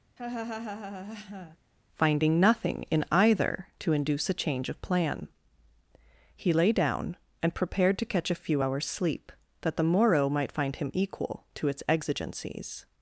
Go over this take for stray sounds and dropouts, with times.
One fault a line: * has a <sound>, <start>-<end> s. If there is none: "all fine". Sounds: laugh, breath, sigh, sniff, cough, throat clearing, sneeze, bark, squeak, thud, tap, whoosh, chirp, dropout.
* has a laugh, 0.2-1.6 s